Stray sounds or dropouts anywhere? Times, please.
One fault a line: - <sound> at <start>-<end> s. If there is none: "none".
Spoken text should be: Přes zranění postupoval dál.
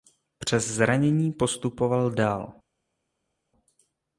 none